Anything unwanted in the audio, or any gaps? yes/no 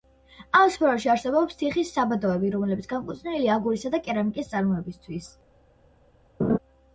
yes